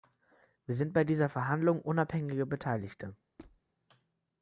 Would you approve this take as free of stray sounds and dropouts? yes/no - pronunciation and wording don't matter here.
no